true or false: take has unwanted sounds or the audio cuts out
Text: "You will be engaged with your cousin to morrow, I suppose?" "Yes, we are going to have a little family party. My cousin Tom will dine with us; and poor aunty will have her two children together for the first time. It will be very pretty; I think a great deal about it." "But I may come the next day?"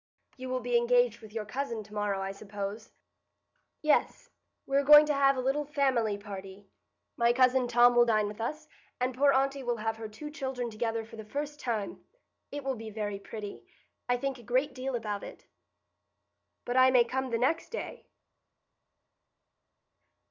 false